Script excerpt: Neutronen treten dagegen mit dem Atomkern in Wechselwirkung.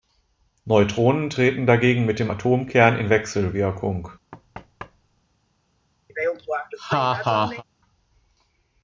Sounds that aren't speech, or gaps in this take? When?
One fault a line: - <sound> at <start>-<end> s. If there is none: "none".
- thud at 4.3-5.2 s
- laugh at 6.1-7.6 s